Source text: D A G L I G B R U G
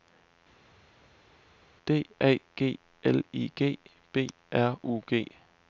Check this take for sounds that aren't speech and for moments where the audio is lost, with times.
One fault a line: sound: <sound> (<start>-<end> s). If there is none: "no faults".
no faults